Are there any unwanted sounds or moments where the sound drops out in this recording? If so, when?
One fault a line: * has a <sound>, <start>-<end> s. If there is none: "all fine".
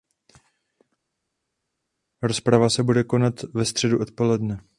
all fine